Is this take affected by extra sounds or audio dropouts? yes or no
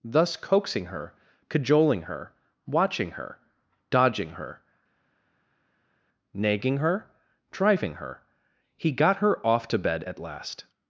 no